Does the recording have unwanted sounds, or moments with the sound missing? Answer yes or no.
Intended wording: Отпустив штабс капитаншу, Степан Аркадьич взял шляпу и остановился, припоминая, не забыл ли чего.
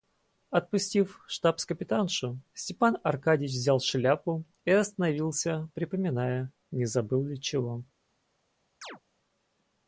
yes